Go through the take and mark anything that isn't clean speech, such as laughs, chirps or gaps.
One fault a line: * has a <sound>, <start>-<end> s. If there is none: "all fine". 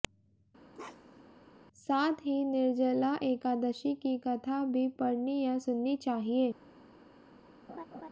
* has a bark, 0.7-1.3 s
* has a laugh, 7.7-8.1 s